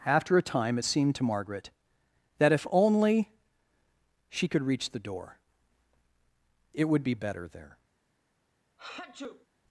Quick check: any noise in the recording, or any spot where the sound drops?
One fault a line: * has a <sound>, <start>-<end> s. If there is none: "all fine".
* has a sneeze, 8.8-9.5 s